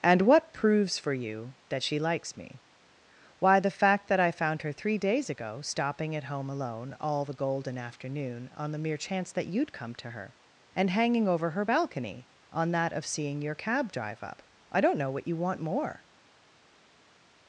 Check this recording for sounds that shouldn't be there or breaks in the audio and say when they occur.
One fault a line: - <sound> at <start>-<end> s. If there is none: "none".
none